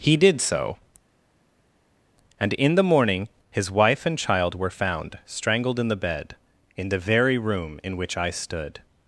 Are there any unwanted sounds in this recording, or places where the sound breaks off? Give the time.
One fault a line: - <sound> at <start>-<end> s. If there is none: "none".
none